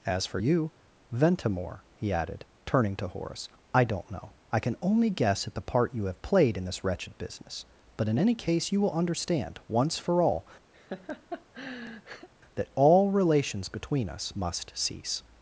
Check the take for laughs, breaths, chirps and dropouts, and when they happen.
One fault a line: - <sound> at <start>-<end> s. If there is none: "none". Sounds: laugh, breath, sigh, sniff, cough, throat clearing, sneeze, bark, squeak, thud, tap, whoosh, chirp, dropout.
- laugh at 10.7-12.3 s